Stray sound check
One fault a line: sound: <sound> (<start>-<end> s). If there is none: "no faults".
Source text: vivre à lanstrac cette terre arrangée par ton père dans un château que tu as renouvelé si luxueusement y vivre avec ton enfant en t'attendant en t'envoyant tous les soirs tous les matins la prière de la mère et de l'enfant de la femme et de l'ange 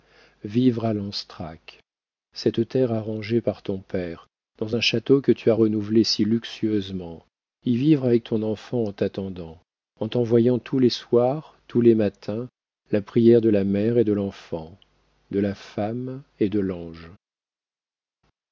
no faults